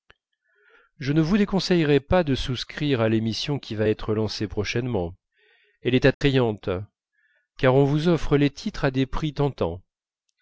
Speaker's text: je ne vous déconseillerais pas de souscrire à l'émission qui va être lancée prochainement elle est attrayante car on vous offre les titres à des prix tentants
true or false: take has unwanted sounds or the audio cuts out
true